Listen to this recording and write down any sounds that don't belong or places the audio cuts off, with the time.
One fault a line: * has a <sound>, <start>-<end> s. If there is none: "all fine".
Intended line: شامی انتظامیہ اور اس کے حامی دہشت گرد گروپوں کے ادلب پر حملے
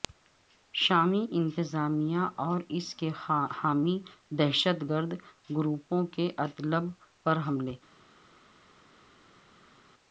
all fine